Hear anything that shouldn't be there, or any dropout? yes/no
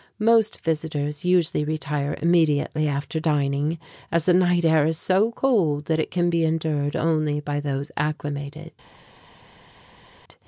no